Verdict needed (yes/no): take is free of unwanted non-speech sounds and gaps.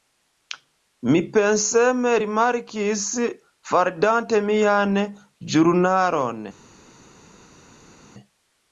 yes